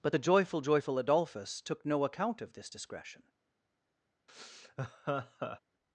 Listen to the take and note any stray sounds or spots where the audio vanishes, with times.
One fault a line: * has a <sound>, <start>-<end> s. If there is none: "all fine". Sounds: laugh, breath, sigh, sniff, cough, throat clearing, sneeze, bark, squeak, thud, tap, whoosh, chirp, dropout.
* has a laugh, 4.3-5.6 s